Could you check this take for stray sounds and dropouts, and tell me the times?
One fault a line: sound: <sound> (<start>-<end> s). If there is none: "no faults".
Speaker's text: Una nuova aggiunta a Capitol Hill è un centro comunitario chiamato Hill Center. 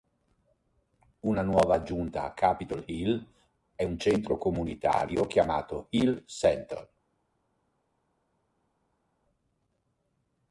no faults